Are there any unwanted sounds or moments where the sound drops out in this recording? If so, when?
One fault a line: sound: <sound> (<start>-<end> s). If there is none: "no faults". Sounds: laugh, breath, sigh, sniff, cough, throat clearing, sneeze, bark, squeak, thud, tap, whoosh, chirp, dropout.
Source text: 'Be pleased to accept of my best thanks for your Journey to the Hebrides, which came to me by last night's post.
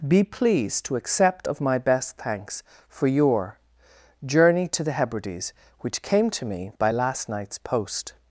no faults